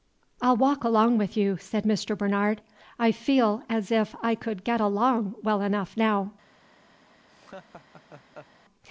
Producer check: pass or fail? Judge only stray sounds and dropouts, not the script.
fail